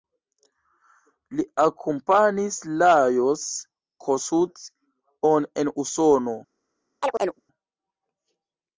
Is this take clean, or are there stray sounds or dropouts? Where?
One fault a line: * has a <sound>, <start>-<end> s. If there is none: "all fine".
* has a chirp, 7.0-7.4 s